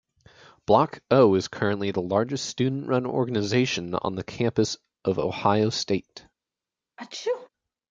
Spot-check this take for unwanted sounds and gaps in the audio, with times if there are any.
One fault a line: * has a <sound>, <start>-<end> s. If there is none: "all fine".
* has a sneeze, 7.0-7.5 s